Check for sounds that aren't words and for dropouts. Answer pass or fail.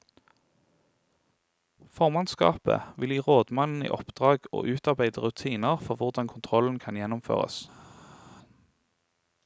pass